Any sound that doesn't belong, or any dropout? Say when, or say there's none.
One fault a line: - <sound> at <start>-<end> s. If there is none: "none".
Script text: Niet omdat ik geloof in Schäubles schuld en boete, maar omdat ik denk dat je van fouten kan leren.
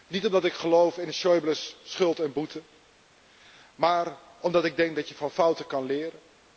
none